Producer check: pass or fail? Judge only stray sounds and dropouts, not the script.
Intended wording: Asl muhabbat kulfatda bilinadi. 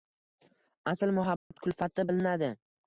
fail